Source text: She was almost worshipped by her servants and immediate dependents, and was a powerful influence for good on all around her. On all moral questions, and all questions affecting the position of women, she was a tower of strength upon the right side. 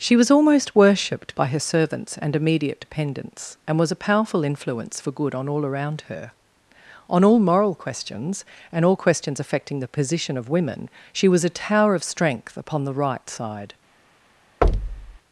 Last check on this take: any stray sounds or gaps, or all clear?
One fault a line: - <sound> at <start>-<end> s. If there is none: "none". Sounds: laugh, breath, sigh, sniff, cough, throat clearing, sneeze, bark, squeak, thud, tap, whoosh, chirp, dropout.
- thud at 14.6-15.2 s